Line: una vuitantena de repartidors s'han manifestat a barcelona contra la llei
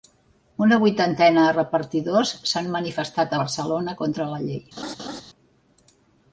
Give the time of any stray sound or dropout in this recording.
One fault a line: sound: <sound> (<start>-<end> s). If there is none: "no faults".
sound: laugh (4.8-5.2 s)